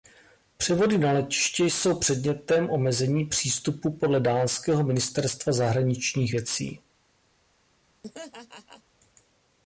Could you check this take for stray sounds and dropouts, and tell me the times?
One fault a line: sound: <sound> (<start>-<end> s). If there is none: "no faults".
sound: laugh (8.0-8.8 s)